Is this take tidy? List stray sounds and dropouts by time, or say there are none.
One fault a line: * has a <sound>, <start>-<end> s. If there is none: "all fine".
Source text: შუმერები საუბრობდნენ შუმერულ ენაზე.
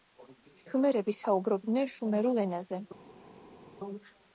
all fine